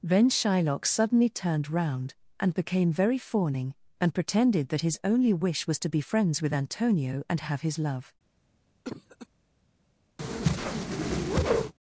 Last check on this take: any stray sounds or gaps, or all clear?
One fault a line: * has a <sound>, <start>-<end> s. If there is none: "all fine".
* has a cough, 8.8-9.3 s
* has a whoosh, 10.2-11.7 s